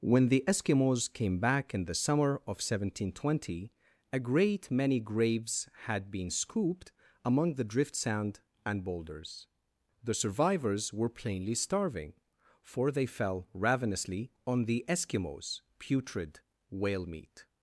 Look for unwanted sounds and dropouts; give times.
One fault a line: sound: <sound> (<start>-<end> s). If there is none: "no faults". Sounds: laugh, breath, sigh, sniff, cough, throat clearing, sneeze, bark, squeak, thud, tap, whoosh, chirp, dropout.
no faults